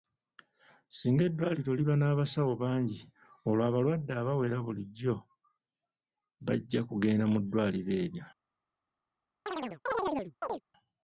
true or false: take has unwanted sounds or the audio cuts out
true